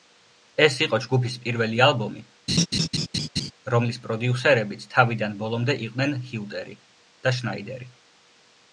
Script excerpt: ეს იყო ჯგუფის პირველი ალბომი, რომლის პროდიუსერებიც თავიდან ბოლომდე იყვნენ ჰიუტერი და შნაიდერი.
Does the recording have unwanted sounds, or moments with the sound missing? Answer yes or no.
yes